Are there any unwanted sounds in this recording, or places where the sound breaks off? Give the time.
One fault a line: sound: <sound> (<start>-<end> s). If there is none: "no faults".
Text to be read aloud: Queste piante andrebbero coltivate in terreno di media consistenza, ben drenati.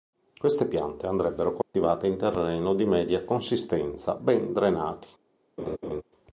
sound: dropout (1.6-1.7 s)
sound: laugh (5.6-6.0 s)